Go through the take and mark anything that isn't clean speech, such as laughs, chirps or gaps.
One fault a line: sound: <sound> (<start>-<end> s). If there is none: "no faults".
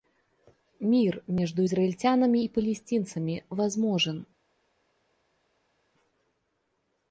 no faults